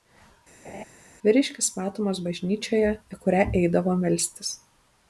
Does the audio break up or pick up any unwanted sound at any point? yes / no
yes